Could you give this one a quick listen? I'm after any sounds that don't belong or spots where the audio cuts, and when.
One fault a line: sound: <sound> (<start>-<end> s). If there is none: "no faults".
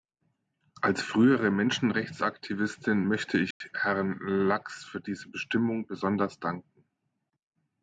sound: dropout (3.5-3.6 s)